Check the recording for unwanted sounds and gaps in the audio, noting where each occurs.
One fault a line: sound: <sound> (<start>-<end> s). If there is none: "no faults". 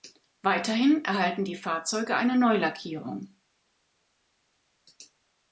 no faults